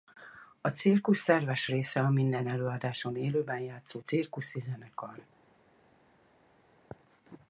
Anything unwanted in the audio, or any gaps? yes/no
no